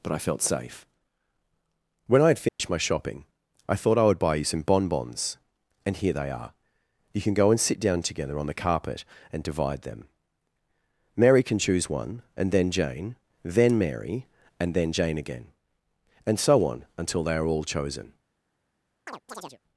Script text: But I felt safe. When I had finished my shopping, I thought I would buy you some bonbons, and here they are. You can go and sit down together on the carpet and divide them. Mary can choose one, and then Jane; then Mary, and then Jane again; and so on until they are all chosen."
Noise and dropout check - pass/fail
fail